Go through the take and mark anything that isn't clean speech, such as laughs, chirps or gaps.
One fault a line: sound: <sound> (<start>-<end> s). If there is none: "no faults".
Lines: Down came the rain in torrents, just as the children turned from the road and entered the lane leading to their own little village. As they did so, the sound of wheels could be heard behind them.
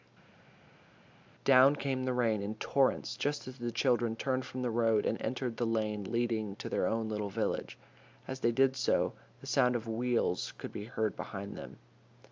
no faults